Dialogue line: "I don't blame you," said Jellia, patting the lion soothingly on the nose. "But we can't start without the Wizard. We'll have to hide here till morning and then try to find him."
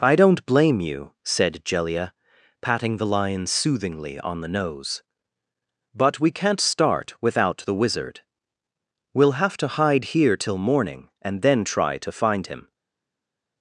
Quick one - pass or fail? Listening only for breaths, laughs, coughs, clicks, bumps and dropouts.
pass